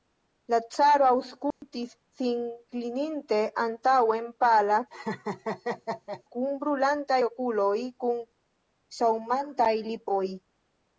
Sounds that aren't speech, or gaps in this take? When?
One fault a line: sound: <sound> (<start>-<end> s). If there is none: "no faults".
sound: dropout (1.5-1.6 s)
sound: laugh (4.9-6.2 s)